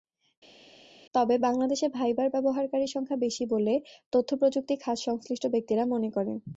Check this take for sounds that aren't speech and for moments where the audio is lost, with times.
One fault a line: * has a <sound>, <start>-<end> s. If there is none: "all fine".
all fine